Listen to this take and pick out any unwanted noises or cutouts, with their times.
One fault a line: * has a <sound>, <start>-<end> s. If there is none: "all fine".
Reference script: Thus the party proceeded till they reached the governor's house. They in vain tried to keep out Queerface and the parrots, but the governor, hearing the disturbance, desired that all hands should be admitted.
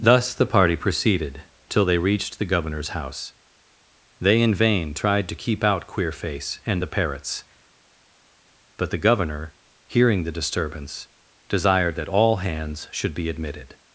all fine